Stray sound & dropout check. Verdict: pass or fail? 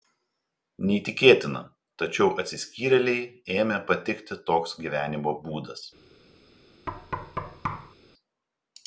fail